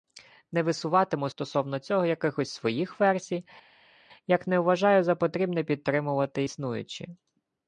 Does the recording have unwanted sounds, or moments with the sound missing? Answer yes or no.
no